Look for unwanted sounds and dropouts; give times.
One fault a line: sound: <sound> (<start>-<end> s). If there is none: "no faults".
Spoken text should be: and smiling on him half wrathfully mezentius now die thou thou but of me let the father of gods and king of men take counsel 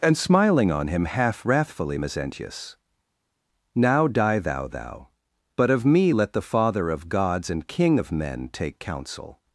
no faults